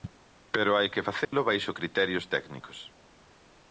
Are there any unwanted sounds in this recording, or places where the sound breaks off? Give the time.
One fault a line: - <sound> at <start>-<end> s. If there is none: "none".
- dropout at 1.2-1.3 s